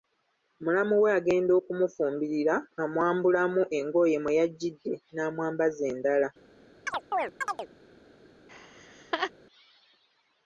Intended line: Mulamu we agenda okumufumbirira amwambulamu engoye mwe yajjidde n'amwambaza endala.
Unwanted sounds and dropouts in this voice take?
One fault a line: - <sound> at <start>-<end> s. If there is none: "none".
- chirp at 6.9-7.7 s
- laugh at 8.5-9.3 s